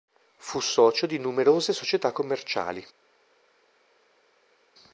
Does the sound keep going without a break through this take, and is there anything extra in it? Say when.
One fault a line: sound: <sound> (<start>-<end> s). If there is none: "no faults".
no faults